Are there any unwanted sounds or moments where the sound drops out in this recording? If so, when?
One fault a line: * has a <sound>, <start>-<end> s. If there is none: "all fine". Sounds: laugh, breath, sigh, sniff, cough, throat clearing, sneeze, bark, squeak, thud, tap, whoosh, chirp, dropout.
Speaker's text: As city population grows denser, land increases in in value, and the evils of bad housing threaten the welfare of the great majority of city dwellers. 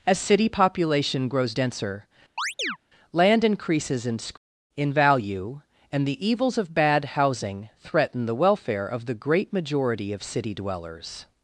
* has a chirp, 2.4-2.8 s